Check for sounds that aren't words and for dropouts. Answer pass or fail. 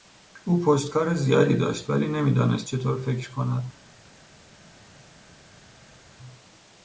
pass